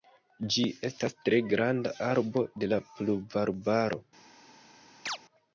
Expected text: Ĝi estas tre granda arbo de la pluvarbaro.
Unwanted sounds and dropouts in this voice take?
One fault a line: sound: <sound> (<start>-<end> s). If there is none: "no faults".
sound: chirp (5.1-5.2 s)